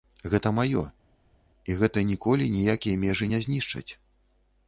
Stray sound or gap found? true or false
false